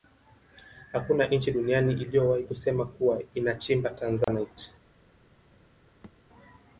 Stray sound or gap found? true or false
true